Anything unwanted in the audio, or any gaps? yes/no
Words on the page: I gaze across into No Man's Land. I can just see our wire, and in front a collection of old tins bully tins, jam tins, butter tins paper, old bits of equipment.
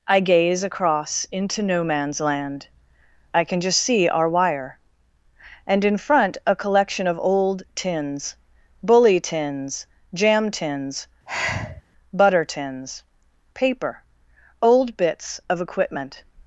yes